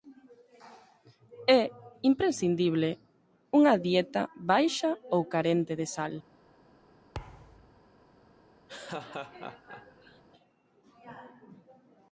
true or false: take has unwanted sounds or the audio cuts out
true